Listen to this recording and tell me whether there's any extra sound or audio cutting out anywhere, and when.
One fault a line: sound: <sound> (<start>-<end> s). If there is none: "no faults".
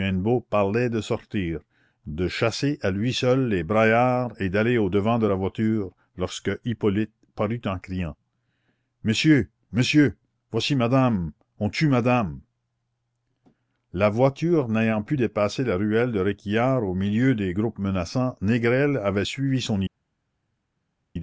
no faults